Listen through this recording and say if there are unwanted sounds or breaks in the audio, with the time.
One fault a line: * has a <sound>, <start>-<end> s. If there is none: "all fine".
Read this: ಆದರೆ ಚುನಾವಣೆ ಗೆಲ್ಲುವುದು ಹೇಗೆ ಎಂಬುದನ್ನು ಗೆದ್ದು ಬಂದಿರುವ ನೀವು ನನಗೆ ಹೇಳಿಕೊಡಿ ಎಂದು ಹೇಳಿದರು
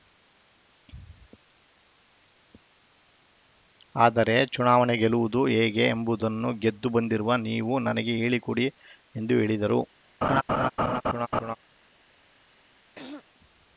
* has a laugh, 10.2-11.6 s
* has a throat clearing, 12.9-13.2 s